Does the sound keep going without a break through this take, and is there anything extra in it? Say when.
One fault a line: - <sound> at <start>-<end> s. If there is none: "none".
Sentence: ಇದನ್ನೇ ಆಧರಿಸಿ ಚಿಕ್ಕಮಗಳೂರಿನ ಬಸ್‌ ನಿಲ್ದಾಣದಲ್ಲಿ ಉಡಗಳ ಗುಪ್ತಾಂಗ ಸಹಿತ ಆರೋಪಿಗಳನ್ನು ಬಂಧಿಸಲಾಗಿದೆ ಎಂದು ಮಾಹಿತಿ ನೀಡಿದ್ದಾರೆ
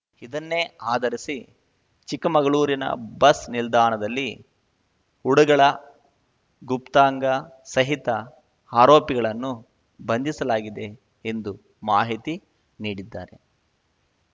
none